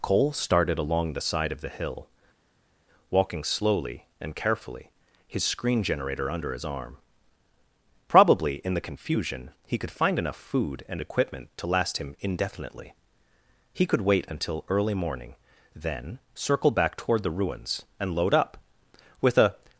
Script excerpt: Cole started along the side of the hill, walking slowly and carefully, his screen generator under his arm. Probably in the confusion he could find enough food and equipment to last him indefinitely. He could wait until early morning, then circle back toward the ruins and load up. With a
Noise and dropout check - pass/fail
pass